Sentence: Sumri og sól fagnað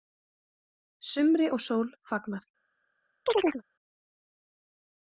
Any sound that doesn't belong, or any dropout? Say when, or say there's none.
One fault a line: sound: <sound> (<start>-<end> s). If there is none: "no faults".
sound: chirp (3.3-3.6 s)